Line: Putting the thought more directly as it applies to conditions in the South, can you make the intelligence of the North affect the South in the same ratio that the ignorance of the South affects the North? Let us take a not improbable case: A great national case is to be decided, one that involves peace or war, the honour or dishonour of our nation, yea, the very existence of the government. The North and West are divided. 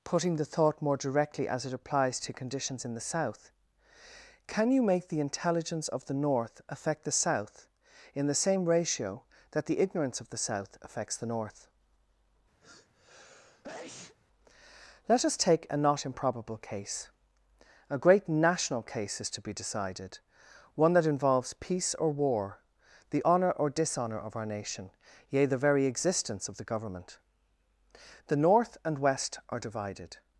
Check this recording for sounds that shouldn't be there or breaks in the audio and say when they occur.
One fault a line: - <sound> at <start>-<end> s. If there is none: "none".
- sneeze at 12.6-14.2 s